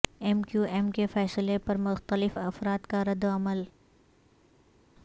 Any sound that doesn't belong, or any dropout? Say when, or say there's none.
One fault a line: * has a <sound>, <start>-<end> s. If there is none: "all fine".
all fine